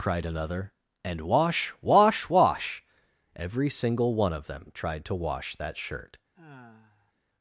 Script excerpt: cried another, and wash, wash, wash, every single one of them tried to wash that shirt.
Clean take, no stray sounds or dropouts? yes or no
no